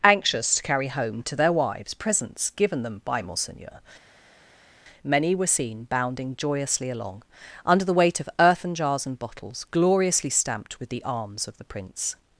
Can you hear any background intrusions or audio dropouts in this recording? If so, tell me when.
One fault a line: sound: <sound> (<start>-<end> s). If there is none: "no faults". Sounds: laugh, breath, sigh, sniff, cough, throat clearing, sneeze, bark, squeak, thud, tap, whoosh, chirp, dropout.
no faults